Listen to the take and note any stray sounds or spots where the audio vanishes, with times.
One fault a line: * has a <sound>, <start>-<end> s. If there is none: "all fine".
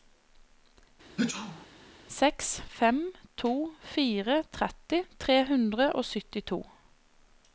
* has a sneeze, 1.2-1.7 s